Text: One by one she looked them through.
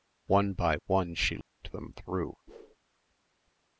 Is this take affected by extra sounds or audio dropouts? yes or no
yes